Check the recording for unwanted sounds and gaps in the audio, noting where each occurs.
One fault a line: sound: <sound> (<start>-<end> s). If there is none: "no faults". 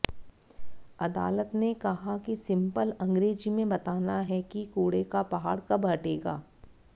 no faults